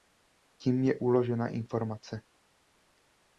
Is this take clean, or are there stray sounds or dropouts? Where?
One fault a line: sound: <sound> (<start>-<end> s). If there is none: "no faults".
no faults